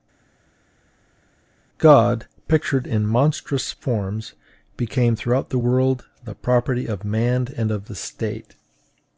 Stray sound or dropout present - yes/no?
no